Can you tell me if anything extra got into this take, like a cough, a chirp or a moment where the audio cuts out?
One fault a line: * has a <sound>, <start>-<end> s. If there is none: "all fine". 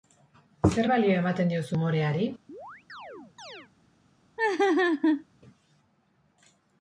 * has a chirp, 2.5-3.7 s
* has a laugh, 4.4-5.2 s